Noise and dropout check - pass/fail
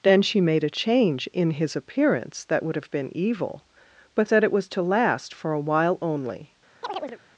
fail